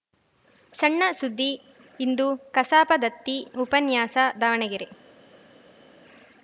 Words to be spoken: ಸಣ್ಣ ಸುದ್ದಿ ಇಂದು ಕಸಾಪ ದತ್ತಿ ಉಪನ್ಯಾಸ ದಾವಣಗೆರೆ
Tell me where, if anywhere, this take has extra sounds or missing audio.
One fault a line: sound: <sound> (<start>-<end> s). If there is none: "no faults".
no faults